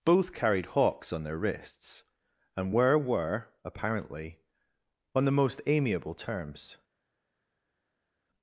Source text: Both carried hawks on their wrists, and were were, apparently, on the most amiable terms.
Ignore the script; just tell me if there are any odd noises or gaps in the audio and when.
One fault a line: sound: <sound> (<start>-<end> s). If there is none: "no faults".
no faults